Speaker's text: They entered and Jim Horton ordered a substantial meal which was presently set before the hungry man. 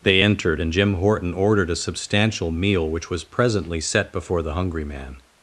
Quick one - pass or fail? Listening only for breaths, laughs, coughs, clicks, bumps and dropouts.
pass